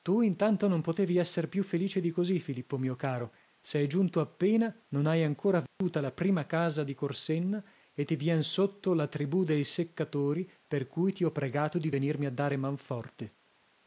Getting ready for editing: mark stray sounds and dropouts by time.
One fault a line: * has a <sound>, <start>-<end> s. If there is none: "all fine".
* has a dropout, 5.7-5.8 s